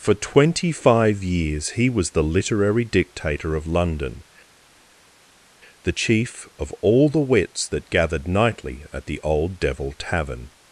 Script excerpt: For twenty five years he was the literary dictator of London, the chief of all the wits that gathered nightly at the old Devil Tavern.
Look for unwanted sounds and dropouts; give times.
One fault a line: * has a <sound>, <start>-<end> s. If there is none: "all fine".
all fine